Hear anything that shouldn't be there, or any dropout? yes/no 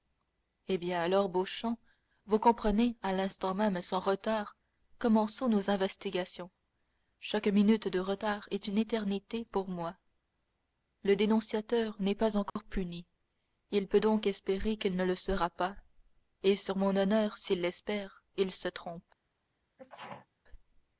yes